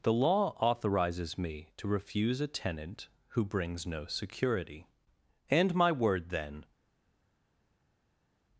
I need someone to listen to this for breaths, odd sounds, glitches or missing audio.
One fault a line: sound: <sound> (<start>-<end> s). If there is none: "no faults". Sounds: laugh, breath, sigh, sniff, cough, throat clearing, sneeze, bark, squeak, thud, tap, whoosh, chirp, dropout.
no faults